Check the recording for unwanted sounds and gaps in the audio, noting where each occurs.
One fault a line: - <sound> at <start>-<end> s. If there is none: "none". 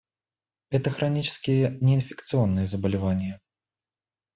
none